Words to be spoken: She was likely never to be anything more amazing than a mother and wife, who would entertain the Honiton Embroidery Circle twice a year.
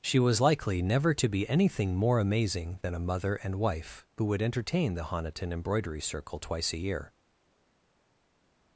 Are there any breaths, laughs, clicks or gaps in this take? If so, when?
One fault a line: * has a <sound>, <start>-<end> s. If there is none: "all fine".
all fine